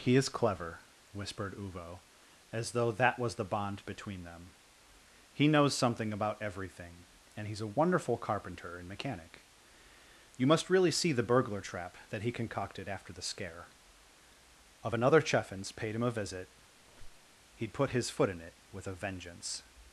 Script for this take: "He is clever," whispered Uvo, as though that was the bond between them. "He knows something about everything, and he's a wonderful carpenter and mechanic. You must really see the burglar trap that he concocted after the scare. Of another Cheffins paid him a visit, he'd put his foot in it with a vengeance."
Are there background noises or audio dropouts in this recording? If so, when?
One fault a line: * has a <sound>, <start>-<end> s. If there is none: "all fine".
* has a squeak, 16.8-17.4 s